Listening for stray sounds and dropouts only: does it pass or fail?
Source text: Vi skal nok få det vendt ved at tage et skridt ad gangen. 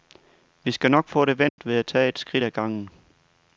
fail